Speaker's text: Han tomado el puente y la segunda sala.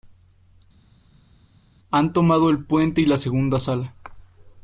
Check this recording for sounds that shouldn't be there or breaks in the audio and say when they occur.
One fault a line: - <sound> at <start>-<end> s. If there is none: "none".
none